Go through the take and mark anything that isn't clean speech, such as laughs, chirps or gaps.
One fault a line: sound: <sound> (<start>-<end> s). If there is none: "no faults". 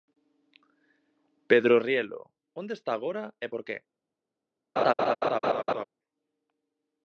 sound: laugh (4.8-5.8 s)